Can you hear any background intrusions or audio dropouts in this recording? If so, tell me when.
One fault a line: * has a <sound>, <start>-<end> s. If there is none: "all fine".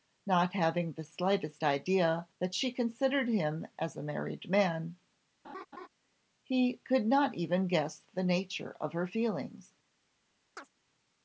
* has a laugh, 5.4-5.9 s
* has a chirp, 10.6-10.7 s